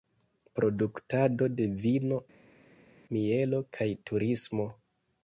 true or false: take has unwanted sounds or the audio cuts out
false